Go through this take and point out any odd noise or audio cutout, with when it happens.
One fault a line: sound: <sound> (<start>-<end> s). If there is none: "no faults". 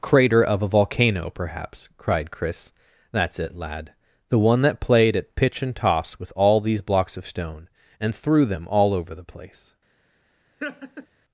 sound: laugh (10.6-11.1 s)